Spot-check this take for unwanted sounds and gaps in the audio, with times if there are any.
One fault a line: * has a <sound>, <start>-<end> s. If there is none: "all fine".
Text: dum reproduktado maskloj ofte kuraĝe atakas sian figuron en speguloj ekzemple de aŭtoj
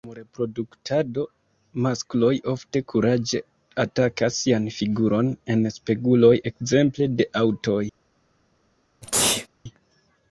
* has a sneeze, 9.0-9.5 s